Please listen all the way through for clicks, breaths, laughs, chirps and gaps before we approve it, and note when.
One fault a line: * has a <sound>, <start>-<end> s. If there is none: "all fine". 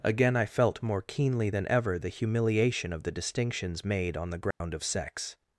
* has a dropout, 4.5-4.6 s